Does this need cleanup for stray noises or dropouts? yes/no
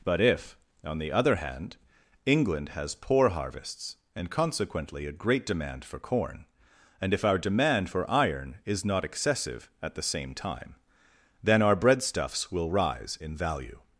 no